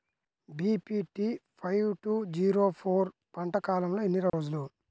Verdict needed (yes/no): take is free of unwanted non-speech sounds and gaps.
no